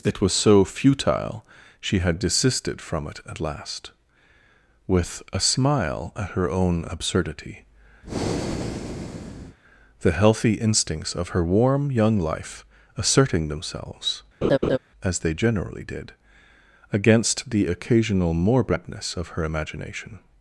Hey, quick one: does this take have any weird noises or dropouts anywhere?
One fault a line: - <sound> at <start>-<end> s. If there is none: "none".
- breath at 8.0-9.6 s
- laugh at 14.4-14.8 s